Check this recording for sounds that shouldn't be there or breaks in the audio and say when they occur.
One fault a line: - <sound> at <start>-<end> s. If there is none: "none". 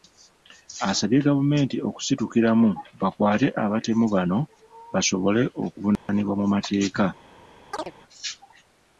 - dropout at 6.0-6.1 s
- chirp at 7.7-7.9 s